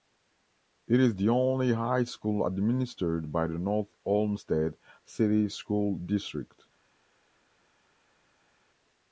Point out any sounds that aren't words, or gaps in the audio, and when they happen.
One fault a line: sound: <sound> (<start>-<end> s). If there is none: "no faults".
no faults